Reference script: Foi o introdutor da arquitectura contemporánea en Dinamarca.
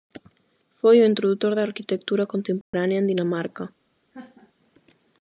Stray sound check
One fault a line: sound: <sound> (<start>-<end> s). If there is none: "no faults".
sound: dropout (2.6-2.7 s)
sound: laugh (4.1-4.5 s)